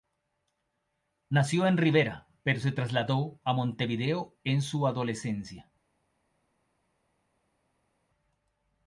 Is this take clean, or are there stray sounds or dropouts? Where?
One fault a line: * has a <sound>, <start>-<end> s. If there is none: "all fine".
all fine